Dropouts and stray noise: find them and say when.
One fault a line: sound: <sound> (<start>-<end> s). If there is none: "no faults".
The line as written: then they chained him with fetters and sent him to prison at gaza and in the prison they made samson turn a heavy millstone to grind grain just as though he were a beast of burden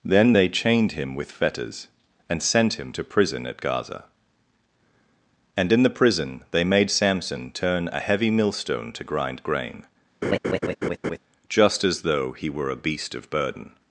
sound: laugh (10.2-11.2 s)